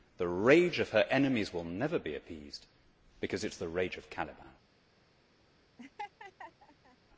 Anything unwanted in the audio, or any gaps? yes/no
yes